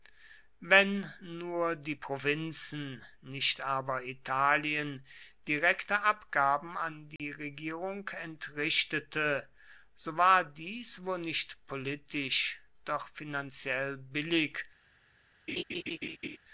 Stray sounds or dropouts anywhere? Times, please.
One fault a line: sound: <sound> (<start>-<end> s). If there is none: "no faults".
sound: dropout (7.2-7.2 s)
sound: laugh (15.5-16.4 s)